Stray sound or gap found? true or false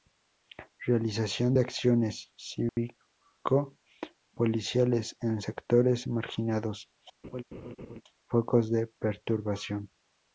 true